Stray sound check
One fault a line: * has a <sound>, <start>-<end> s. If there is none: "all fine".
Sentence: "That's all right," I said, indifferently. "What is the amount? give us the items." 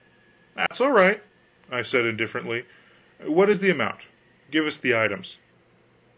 * has a dropout, 0.7-0.7 s